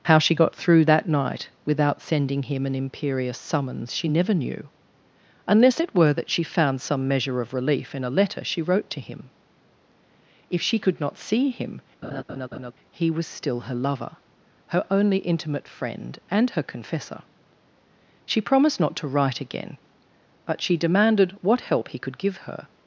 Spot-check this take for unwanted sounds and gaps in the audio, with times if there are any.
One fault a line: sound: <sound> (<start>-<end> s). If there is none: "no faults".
sound: laugh (12.0-12.7 s)